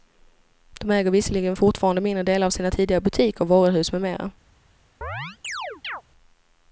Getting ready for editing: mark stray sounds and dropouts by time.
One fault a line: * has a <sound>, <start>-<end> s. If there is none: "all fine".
* has a chirp, 5.0-6.0 s